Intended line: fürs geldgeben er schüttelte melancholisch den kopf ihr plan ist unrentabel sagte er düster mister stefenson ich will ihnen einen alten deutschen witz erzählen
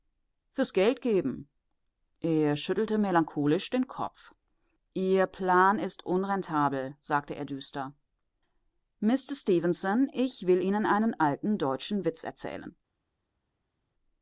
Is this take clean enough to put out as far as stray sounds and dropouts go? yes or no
yes